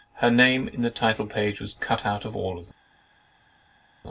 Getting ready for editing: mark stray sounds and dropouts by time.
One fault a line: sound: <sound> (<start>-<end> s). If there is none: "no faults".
no faults